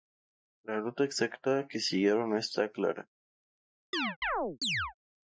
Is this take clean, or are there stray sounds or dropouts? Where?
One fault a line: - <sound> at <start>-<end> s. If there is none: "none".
- chirp at 3.9-4.9 s